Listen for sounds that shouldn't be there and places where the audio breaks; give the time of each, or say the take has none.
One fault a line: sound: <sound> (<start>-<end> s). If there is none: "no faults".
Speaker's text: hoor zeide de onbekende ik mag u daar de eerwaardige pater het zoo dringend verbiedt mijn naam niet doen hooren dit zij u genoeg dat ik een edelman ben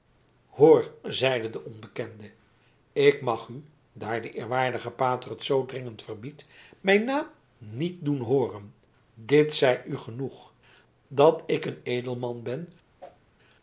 sound: whoosh (13.0-13.2 s)